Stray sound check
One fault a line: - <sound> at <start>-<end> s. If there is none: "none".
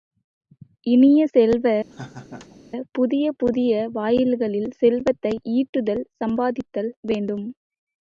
- laugh at 1.9-2.6 s